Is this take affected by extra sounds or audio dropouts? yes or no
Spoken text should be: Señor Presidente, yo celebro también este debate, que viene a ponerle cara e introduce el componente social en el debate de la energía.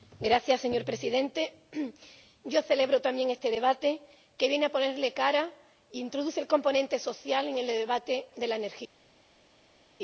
no